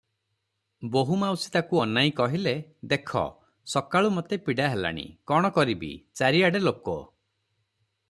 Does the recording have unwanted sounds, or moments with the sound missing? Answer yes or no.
no